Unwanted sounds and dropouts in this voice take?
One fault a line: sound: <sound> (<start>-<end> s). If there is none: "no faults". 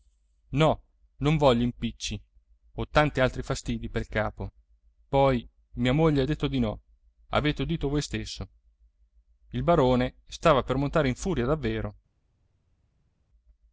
no faults